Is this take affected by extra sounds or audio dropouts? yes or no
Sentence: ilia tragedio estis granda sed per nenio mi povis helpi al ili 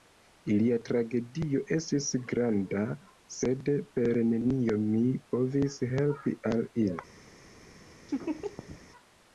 yes